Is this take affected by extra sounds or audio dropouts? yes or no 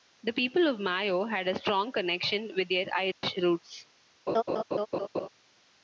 yes